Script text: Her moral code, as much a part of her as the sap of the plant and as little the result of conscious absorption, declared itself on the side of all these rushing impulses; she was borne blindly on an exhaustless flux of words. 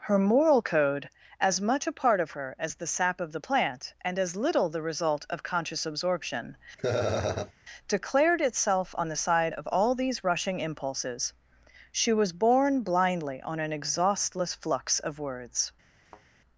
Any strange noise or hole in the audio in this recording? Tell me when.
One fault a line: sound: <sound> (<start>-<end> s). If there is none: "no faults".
sound: laugh (6.8-7.5 s)
sound: thud (16.0-16.3 s)